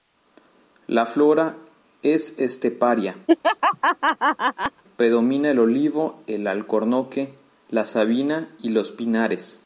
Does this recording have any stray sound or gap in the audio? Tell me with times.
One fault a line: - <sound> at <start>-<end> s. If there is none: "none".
- laugh at 3.3-4.8 s